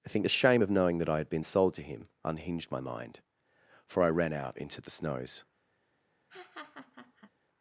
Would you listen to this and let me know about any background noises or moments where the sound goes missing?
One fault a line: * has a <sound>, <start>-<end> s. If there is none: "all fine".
* has a laugh, 6.3-7.3 s